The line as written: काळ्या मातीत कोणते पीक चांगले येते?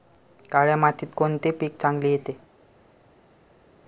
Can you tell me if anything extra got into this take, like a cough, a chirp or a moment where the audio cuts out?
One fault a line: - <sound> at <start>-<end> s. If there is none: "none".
none